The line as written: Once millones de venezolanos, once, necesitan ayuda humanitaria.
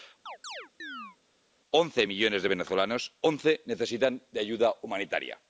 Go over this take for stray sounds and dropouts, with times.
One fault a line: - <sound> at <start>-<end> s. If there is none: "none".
- chirp at 0.3-1.2 s